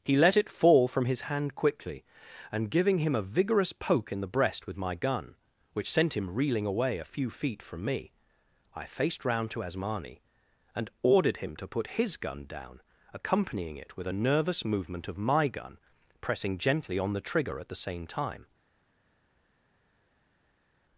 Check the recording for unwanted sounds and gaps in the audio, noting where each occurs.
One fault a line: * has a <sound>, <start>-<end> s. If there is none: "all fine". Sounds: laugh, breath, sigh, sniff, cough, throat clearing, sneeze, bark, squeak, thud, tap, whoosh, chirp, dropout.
all fine